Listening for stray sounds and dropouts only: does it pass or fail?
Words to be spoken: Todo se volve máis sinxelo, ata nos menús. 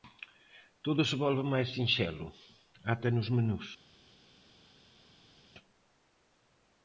pass